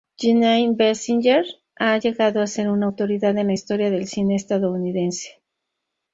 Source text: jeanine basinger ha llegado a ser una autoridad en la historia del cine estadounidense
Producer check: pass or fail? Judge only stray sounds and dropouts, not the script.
pass